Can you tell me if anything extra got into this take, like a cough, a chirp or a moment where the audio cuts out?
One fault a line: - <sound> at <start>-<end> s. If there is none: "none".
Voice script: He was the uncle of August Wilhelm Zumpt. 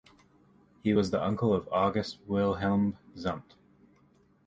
none